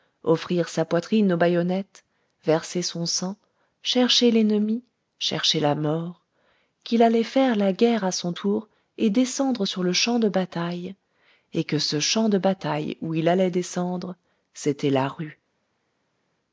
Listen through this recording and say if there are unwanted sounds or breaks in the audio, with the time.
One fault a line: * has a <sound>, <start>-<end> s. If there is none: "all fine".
all fine